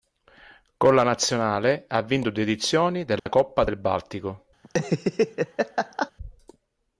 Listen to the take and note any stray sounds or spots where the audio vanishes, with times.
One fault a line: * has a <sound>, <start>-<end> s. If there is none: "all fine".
* has a dropout, 3.2-3.3 s
* has a laugh, 4.6-6.1 s